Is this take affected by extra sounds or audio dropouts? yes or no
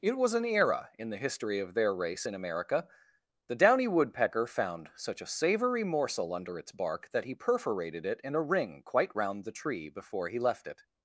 no